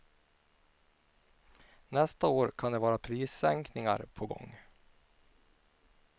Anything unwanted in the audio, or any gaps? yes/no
no